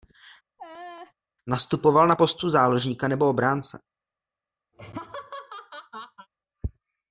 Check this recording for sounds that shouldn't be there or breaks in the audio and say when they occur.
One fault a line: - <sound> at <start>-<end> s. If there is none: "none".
- laugh at 0.6-1.1 s
- laugh at 4.7-6.3 s